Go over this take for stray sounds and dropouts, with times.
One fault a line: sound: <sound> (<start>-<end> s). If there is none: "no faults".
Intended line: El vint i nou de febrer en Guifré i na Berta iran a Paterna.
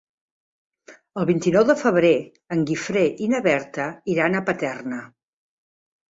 no faults